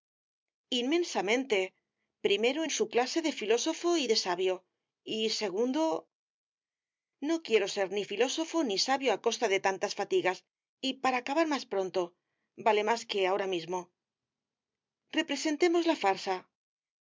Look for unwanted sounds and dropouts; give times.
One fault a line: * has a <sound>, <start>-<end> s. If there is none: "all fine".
all fine